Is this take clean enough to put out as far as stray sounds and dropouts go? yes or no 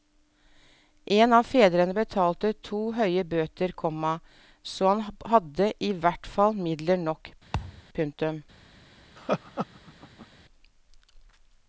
no